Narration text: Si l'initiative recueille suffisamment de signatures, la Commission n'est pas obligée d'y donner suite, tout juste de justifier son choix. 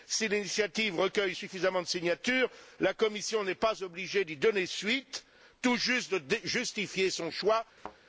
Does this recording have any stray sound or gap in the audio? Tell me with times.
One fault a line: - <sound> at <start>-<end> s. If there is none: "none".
- thud at 7.8-8.0 s